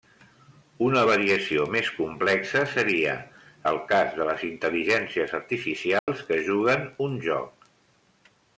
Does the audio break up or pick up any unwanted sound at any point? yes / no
yes